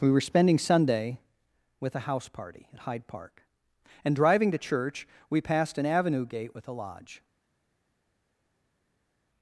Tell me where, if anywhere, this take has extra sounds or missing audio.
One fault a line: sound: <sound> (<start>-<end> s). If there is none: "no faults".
no faults